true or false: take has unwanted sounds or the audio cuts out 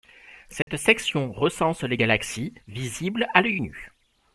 true